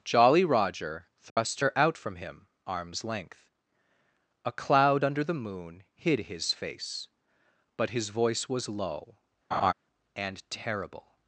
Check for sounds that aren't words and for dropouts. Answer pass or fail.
fail